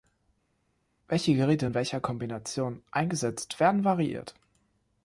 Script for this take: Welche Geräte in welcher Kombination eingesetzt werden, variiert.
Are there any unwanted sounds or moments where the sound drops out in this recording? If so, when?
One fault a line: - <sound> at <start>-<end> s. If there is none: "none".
none